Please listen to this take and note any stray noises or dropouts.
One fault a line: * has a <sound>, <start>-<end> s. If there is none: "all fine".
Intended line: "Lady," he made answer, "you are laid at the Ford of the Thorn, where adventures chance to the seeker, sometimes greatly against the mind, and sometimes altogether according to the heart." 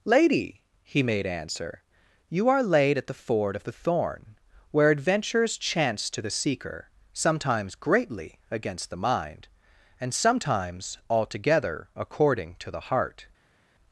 all fine